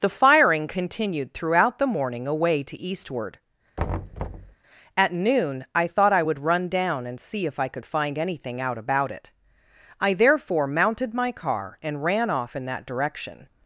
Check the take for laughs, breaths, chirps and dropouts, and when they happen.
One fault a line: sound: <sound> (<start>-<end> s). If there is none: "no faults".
sound: thud (3.8-4.6 s)